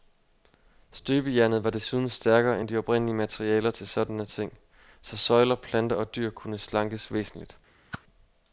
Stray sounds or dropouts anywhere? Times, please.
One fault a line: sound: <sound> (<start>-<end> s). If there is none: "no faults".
sound: whoosh (7.9-8.0 s)